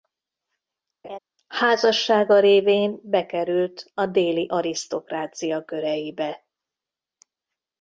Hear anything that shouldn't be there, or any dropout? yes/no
yes